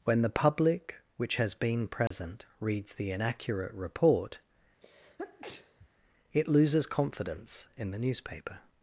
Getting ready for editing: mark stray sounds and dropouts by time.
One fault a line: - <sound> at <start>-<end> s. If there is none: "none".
- dropout at 2.1-2.1 s
- sneeze at 4.8-5.9 s